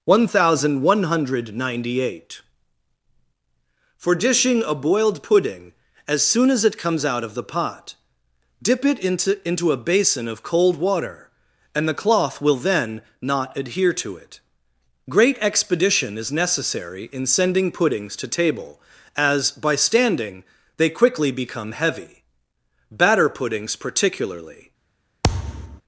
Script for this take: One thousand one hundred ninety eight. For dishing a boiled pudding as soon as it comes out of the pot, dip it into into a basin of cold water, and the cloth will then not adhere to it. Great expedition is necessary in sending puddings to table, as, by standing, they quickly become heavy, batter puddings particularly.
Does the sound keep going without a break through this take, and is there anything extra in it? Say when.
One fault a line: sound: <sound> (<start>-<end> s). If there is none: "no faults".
sound: thud (25.2-25.8 s)